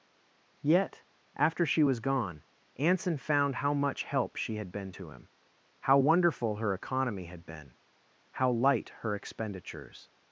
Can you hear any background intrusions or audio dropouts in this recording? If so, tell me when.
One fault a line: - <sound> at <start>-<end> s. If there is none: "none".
none